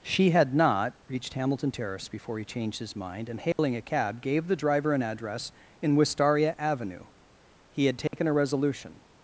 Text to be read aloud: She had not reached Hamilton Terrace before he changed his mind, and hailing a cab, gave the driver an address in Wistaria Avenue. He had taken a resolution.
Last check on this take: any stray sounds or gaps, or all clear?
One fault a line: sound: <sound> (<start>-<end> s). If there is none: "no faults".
sound: dropout (3.5-3.6 s)
sound: dropout (8.1-8.1 s)